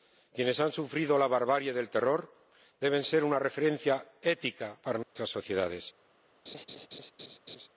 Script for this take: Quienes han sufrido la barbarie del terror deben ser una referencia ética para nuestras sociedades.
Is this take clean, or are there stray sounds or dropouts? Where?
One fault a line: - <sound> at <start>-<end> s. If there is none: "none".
- dropout at 5.0-5.2 s
- laugh at 6.5-7.7 s